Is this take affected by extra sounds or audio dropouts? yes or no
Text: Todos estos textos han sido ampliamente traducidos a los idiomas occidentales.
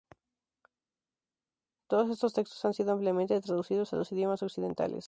no